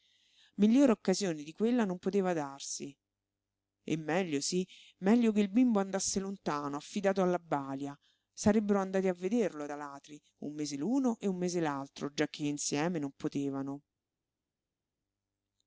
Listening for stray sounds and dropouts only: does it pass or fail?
pass